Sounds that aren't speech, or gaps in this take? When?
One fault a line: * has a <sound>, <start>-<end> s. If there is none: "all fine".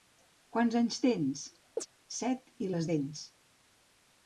* has a chirp, 1.8-1.9 s